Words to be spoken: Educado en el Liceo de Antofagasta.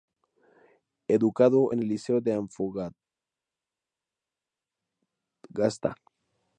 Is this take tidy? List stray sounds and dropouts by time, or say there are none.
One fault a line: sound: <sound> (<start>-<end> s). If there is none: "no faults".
no faults